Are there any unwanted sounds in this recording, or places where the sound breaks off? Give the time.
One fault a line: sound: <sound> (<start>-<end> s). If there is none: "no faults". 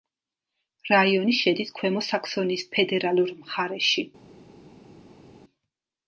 no faults